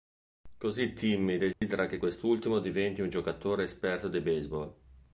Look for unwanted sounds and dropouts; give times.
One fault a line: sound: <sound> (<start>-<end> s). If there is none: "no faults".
sound: dropout (1.5-1.6 s)